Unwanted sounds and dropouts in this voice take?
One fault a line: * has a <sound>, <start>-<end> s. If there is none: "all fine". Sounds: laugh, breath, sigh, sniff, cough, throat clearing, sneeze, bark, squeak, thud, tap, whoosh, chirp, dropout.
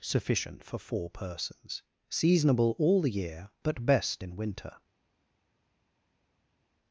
all fine